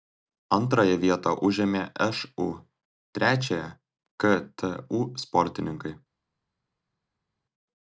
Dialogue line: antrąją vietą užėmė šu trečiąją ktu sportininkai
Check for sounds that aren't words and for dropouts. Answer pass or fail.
pass